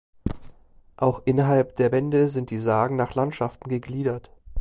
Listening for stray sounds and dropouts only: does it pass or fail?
pass